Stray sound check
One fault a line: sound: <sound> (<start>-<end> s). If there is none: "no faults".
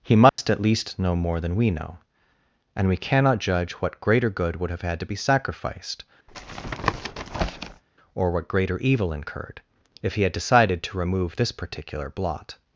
sound: dropout (0.3-0.4 s)
sound: tap (6.3-7.8 s)